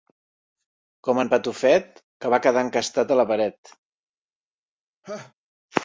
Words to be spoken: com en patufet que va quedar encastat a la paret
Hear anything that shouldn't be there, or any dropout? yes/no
yes